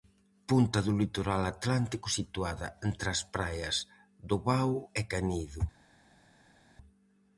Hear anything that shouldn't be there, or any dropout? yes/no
no